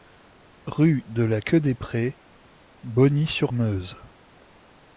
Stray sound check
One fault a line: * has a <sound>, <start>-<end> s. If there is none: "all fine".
all fine